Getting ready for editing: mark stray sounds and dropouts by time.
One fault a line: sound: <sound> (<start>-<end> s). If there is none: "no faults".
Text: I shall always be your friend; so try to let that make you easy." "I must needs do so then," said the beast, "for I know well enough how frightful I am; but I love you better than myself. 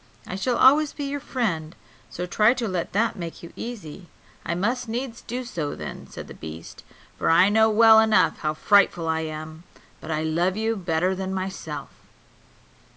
no faults